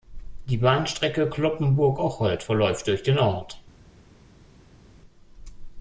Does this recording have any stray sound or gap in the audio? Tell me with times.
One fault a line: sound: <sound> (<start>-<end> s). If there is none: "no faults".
no faults